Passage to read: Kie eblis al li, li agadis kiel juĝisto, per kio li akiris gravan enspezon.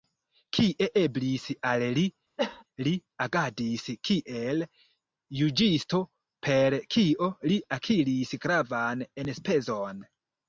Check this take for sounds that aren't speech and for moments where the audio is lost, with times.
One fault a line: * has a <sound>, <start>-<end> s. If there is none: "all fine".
* has a cough, 2.4-2.6 s